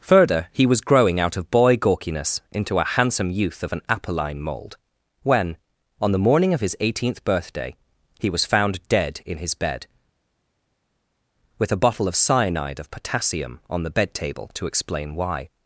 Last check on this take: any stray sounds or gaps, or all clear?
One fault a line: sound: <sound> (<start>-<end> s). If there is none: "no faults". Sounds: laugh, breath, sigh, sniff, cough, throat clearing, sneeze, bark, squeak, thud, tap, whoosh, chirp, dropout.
no faults